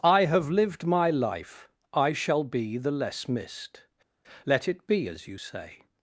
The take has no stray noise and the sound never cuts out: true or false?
true